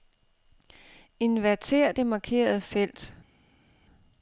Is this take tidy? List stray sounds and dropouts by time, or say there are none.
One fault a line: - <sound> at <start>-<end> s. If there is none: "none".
none